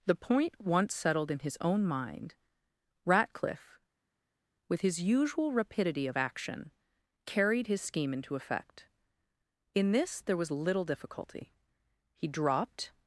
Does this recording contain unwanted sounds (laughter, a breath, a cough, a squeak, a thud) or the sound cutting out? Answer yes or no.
no